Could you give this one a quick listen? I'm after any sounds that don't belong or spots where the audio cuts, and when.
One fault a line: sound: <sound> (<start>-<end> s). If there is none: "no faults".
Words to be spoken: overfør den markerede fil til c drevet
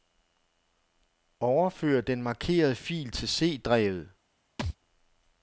sound: thud (4.6-4.8 s)